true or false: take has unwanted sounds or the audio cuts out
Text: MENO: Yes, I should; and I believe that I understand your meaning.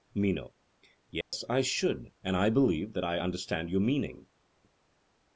true